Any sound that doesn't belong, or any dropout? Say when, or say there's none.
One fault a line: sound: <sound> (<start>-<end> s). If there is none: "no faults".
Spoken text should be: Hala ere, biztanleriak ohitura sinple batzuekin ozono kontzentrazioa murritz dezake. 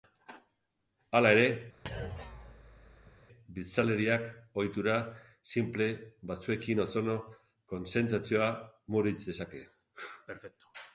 sound: thud (1.8-3.2 s)